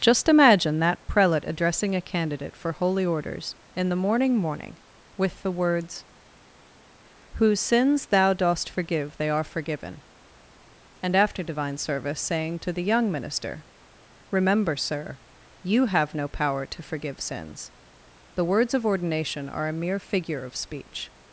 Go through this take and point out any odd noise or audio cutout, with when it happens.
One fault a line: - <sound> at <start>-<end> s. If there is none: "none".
none